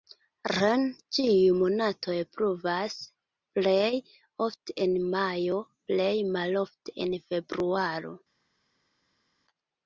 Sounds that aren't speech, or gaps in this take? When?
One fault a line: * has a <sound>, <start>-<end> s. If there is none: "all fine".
all fine